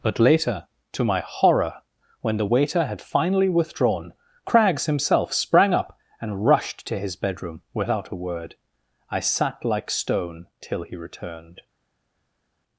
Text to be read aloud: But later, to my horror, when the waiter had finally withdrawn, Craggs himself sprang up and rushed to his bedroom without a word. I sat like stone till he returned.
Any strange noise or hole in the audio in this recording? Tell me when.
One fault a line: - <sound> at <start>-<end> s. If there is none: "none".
none